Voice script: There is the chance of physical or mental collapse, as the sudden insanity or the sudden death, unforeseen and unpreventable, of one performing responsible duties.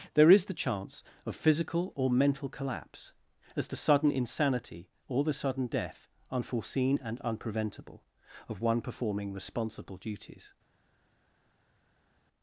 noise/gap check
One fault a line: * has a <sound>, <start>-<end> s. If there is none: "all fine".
all fine